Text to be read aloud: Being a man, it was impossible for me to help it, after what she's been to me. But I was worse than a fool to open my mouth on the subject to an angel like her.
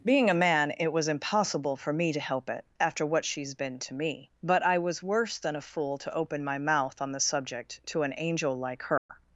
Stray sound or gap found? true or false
true